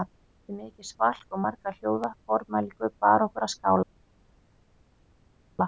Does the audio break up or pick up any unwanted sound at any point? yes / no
no